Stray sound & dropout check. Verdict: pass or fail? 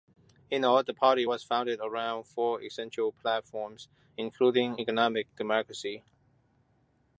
pass